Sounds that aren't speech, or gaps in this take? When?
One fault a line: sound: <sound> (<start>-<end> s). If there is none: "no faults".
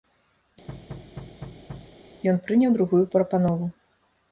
sound: thud (0.7-2.0 s)